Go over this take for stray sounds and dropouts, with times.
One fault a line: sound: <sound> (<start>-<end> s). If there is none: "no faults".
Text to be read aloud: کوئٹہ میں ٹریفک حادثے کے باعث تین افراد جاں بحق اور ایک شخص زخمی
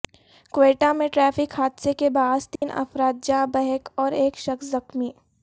sound: dropout (2.6-2.6 s)